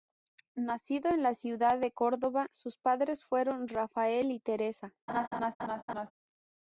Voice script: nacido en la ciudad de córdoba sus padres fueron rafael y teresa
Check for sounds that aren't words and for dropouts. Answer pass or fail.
fail